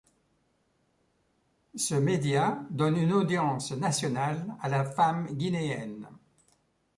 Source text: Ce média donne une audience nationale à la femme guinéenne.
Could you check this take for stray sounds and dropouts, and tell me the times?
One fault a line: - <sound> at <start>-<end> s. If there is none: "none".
none